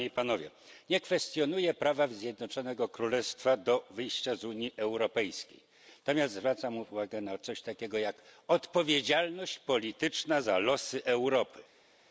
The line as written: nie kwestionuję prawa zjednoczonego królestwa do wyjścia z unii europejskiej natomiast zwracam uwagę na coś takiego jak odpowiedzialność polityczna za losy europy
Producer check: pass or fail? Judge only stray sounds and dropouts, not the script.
pass